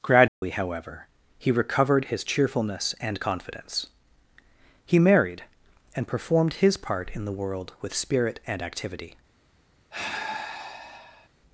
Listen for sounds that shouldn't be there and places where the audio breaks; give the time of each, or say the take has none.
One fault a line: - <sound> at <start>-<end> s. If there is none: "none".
- dropout at 0.3-0.4 s
- sigh at 9.9-11.3 s